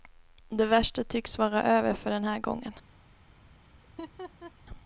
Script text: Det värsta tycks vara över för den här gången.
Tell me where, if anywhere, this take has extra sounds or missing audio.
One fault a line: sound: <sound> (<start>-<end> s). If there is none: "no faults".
sound: laugh (3.8-4.5 s)